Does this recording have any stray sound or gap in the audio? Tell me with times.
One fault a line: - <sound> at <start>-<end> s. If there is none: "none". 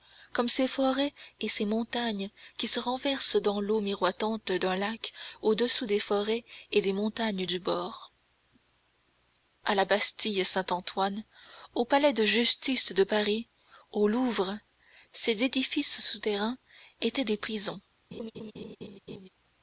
- laugh at 18.1-19.3 s